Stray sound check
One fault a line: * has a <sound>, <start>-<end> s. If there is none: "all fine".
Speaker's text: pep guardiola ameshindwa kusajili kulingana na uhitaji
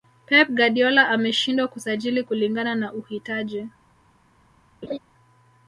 * has a laugh, 4.8-5.0 s